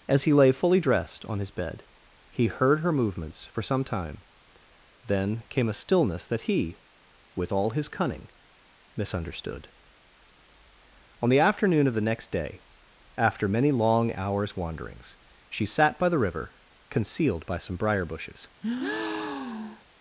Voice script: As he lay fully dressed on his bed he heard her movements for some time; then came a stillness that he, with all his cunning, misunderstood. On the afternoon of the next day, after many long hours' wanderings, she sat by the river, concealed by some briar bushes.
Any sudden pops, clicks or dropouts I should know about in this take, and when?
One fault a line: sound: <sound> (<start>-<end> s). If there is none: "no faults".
sound: breath (18.6-19.8 s)